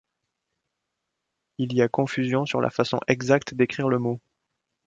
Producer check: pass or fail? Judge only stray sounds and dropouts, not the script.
pass